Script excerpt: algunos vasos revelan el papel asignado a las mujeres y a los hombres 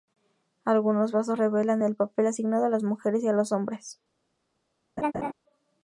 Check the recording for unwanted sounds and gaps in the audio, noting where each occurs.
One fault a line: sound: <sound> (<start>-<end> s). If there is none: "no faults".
sound: laugh (5.0-5.3 s)